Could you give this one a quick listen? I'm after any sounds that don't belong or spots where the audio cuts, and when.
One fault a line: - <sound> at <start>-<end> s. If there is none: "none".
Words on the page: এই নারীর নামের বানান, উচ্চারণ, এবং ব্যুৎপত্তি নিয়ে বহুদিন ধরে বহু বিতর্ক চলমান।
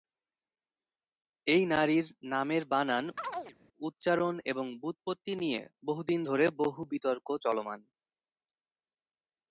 - chirp at 3.2-3.6 s